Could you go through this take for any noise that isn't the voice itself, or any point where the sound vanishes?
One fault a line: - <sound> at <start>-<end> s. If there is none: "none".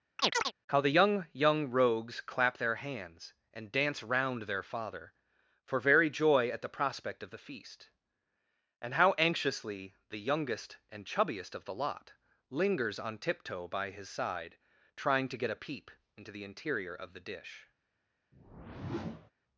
- chirp at 0.2-0.5 s
- whoosh at 18.3-19.3 s